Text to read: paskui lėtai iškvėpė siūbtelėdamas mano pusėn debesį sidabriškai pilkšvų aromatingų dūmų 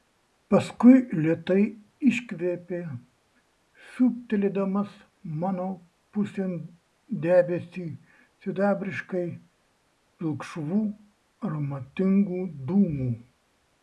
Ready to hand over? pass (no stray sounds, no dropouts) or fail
pass